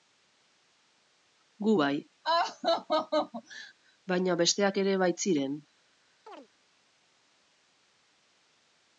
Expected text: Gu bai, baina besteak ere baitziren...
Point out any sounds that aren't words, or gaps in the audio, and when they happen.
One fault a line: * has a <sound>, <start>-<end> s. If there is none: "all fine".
* has a laugh, 2.2-3.7 s
* has a chirp, 6.3-6.5 s